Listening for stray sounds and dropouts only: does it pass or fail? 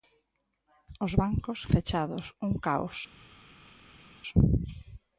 pass